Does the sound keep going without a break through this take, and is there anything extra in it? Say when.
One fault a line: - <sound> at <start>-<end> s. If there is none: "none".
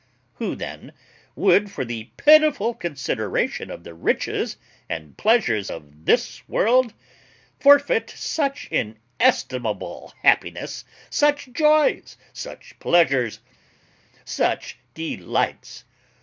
none